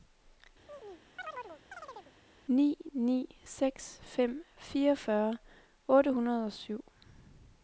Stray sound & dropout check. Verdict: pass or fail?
fail